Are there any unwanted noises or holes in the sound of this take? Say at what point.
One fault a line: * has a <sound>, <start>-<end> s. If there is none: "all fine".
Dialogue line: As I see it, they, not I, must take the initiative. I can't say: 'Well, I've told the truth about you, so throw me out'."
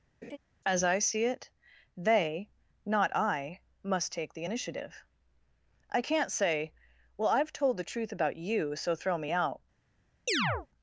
* has a laugh, 0.2-0.4 s
* has a chirp, 10.3-10.7 s